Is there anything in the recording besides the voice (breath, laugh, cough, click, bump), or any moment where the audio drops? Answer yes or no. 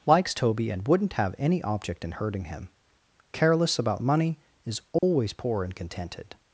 yes